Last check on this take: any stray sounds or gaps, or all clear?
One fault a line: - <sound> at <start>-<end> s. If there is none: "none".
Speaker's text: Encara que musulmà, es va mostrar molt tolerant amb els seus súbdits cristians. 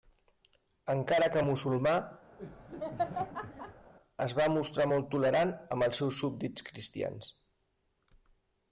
- laugh at 2.4-3.9 s